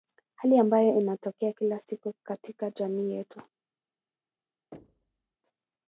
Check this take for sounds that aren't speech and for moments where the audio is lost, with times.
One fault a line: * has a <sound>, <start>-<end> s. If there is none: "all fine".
* has a thud, 4.7-5.4 s